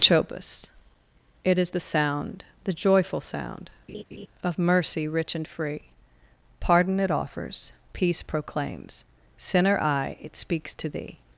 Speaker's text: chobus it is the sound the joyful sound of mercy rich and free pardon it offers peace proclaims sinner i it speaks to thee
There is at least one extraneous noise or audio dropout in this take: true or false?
true